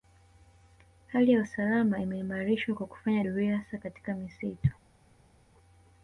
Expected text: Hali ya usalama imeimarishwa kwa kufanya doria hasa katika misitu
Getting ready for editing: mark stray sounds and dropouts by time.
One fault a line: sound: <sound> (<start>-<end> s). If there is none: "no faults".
no faults